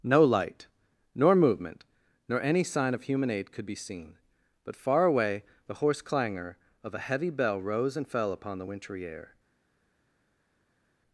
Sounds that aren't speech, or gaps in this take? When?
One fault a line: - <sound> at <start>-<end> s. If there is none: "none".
none